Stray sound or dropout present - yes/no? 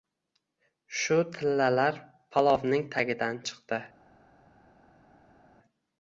no